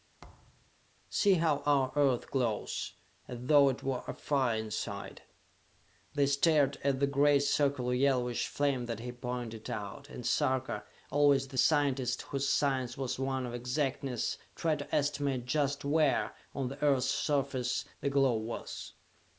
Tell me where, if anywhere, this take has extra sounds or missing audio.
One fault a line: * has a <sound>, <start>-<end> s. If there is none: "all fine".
* has a thud, 0.2-0.7 s